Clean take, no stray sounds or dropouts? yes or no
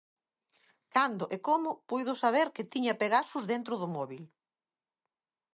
yes